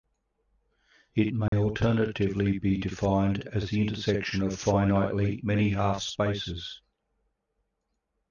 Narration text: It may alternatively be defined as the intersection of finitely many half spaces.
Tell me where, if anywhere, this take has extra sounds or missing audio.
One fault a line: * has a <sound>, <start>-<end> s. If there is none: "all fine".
* has a dropout, 1.5-1.5 s